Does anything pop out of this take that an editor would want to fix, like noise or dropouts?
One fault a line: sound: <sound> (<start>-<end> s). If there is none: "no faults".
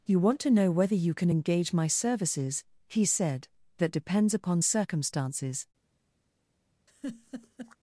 sound: laugh (6.9-7.8 s)